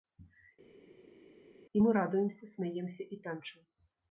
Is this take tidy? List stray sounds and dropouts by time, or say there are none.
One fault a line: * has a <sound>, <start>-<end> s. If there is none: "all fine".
all fine